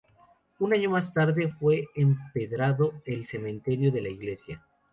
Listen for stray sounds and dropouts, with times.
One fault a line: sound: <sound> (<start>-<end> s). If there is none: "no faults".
no faults